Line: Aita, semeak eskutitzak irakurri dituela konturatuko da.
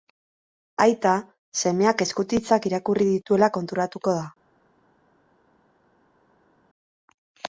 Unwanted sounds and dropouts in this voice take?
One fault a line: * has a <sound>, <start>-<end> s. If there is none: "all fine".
all fine